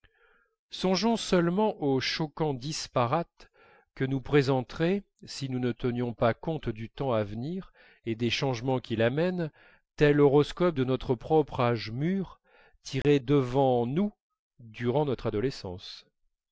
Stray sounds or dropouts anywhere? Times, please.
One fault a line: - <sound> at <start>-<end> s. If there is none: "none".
- dropout at 13.0-13.0 s